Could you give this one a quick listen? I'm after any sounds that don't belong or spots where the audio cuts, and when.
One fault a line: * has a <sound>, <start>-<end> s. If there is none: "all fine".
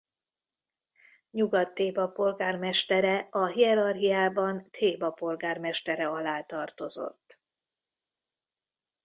all fine